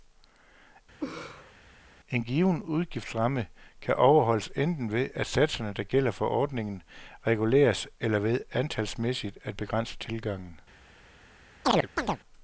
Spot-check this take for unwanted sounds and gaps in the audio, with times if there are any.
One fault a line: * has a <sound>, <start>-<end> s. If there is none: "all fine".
* has a laugh, 1.0-1.5 s
* has a chirp, 11.6-12.2 s